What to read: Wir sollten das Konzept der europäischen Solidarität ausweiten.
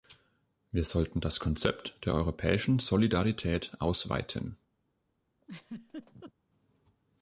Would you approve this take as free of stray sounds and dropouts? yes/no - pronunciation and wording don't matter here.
no